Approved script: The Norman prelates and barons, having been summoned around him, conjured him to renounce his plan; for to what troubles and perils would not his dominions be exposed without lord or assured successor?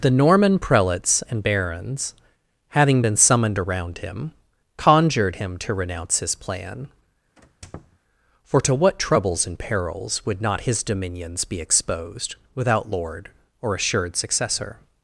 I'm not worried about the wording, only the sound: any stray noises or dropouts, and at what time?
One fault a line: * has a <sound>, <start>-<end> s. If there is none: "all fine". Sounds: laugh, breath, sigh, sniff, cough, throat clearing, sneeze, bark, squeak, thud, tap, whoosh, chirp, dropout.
* has a squeak, 7.4-8.0 s